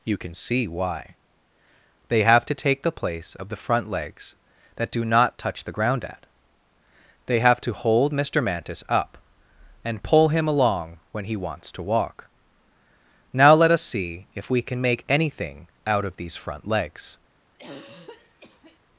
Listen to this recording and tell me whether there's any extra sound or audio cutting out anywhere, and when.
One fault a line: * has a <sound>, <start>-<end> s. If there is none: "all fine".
* has a throat clearing, 17.5-18.8 s